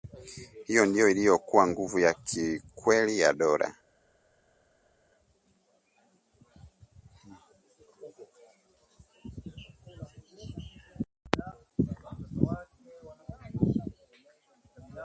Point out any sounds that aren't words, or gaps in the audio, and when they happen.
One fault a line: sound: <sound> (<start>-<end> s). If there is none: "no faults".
no faults